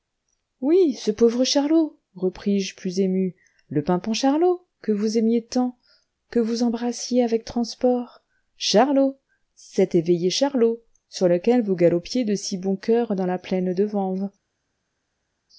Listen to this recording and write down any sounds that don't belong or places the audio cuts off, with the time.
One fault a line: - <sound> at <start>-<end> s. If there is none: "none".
none